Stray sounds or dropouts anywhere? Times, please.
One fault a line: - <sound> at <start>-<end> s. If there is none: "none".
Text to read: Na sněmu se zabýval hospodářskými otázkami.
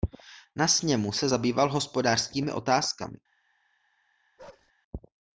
- bark at 4.4-4.7 s